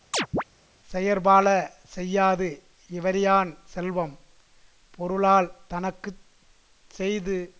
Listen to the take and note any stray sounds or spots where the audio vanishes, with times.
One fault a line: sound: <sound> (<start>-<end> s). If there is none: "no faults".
sound: chirp (0.1-0.4 s)